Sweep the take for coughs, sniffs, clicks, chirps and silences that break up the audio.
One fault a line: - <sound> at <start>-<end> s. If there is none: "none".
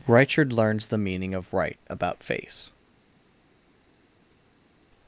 none